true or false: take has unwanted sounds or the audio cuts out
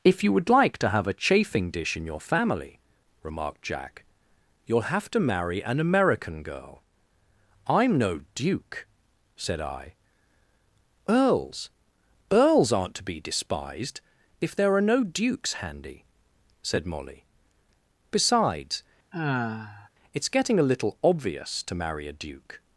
true